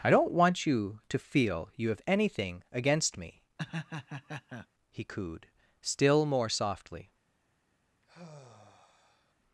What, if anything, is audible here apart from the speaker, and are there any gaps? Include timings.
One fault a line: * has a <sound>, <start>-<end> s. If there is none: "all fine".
* has a laugh, 3.6-4.7 s
* has a sigh, 8.0-9.3 s